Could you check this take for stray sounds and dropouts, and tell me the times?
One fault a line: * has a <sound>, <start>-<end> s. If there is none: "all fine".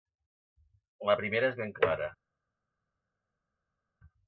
all fine